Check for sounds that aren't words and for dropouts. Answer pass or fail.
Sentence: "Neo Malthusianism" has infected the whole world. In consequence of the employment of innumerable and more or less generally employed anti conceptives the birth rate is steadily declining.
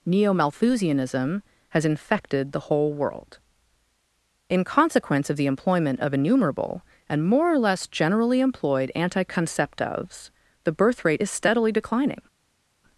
pass